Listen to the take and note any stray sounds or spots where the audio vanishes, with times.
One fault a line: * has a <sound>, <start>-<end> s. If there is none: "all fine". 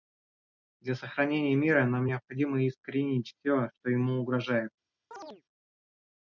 * has a chirp, 5.1-5.4 s